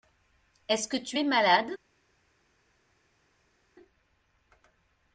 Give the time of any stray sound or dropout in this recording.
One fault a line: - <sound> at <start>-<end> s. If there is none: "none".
none